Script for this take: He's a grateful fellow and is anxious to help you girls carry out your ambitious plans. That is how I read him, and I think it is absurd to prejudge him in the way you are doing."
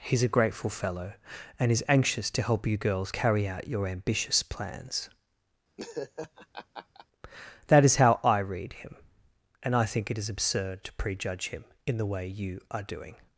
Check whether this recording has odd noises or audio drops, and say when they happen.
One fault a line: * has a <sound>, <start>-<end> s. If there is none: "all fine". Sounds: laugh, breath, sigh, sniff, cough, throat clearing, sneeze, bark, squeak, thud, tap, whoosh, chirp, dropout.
* has a laugh, 5.8-7.1 s